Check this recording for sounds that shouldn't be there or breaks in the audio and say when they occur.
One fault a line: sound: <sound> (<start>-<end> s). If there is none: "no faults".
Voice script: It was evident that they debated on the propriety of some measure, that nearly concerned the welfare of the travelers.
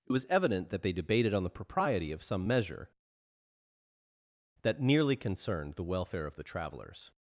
no faults